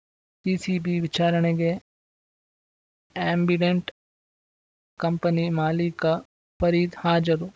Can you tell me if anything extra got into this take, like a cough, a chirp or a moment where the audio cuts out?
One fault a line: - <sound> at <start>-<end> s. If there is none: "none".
none